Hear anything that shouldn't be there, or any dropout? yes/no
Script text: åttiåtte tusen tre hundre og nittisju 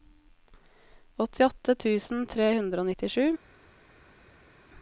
no